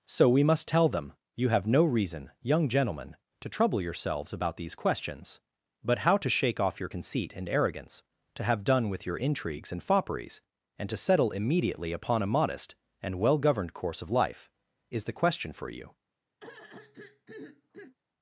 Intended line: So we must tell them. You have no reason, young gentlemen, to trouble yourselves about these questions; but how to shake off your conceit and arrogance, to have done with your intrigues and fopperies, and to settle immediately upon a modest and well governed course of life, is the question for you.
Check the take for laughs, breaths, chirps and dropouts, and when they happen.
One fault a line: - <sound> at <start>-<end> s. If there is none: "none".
- throat clearing at 16.4-18.0 s